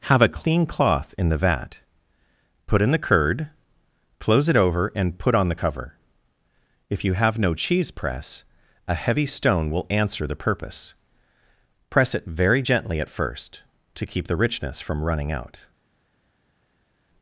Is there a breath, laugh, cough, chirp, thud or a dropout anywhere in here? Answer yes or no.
no